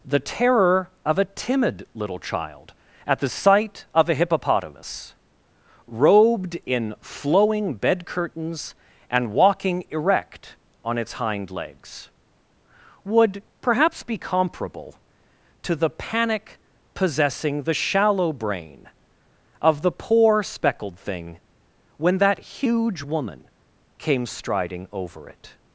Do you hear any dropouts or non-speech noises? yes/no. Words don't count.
no